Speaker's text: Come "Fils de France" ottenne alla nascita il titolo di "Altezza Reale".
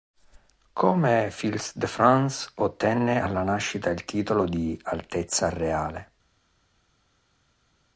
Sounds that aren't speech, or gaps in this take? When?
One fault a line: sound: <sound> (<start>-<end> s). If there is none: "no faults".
no faults